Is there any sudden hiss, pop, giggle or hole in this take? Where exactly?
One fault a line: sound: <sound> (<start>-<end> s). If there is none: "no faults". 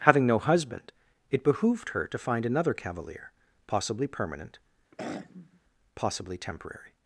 sound: throat clearing (4.9-5.6 s)